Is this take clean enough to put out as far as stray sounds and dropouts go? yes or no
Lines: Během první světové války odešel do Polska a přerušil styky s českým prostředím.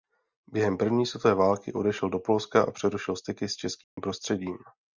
no